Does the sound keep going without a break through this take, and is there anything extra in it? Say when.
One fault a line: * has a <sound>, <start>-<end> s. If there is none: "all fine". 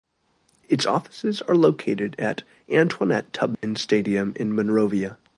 * has a dropout, 3.5-3.6 s